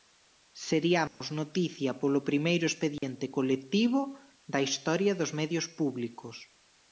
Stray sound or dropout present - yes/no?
yes